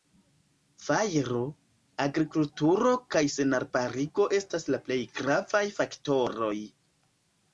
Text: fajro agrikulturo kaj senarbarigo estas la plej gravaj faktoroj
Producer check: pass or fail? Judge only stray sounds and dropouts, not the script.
pass